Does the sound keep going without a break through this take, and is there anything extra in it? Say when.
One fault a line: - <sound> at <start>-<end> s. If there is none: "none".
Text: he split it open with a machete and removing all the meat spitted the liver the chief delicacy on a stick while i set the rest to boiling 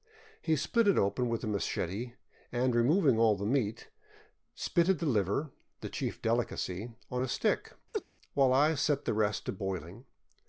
- laugh at 7.9-8.0 s